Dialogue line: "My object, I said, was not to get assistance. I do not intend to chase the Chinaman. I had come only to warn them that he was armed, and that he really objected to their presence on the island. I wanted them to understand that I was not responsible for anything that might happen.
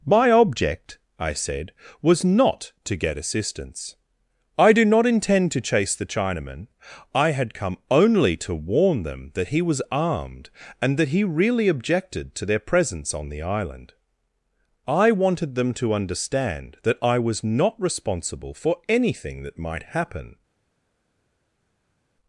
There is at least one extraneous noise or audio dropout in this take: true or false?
false